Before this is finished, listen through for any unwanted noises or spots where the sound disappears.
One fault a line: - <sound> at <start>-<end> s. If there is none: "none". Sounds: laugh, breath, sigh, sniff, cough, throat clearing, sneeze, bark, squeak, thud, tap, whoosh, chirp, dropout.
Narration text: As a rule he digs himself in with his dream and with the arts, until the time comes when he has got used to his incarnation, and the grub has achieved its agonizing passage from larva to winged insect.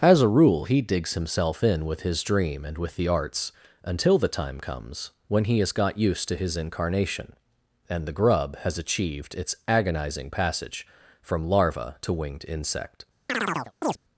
- chirp at 13.3-14.0 s